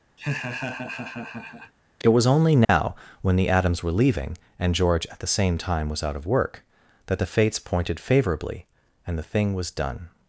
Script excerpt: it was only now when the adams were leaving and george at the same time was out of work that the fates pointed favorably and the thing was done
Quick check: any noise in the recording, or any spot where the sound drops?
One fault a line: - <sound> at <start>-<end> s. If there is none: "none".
- laugh at 0.2-1.7 s
- dropout at 2.6-2.7 s